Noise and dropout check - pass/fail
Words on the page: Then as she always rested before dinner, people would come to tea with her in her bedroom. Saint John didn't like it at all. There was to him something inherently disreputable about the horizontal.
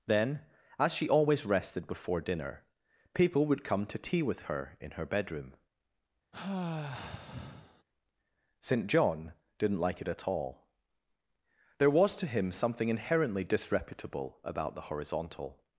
fail